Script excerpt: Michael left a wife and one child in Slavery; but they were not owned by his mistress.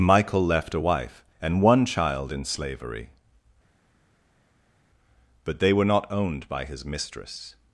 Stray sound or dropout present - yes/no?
no